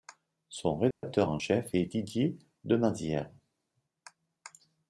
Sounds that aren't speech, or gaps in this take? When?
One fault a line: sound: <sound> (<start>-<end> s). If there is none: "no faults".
sound: dropout (0.9-1.0 s)